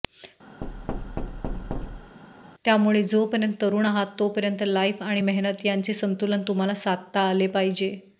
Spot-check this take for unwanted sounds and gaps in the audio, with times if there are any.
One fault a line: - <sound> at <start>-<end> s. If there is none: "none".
- thud at 0.6-2.2 s